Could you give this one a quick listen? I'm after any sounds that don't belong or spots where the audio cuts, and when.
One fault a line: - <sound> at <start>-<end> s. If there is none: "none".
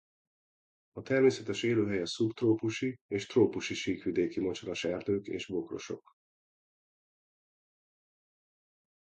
none